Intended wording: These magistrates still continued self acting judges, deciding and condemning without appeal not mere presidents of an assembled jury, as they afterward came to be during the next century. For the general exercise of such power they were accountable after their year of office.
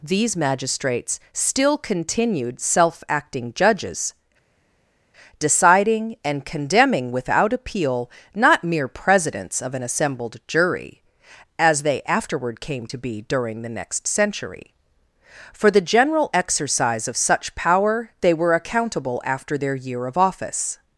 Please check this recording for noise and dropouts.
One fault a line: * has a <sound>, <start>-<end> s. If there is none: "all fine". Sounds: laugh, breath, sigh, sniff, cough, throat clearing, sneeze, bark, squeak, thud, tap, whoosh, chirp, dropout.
all fine